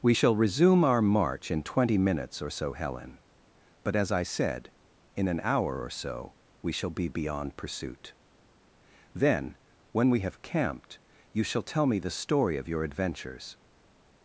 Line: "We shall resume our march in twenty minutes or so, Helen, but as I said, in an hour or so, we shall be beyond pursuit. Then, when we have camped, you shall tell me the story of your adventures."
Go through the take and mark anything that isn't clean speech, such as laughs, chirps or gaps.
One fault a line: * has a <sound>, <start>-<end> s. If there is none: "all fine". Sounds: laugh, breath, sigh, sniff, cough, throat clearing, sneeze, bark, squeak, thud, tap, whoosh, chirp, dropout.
all fine